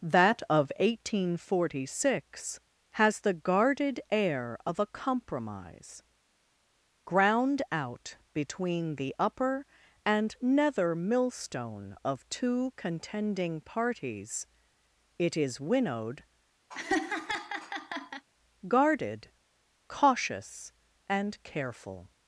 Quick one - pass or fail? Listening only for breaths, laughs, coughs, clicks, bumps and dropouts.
fail